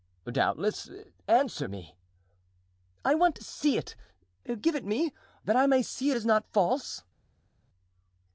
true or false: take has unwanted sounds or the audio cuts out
false